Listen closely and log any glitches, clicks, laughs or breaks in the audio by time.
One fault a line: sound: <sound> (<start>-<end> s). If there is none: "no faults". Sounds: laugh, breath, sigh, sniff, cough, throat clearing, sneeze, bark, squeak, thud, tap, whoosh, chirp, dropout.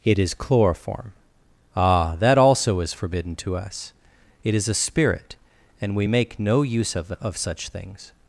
no faults